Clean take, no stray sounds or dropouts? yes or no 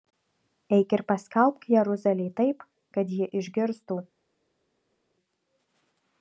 yes